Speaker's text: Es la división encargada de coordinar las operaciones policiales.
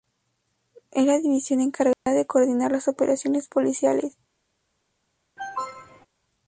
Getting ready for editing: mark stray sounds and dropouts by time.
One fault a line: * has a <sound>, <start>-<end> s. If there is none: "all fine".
* has a dropout, 1.9-2.1 s
* has a cough, 5.4-6.1 s